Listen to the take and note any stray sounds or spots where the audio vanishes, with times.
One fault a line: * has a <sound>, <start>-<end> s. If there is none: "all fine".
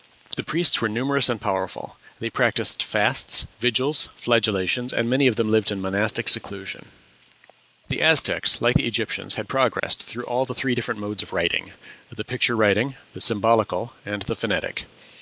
* has a dropout, 9.8-9.8 s